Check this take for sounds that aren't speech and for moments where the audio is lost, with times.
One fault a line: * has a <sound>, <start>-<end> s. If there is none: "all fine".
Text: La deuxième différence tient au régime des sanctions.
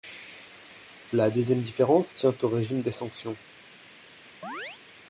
* has a chirp, 4.4-4.8 s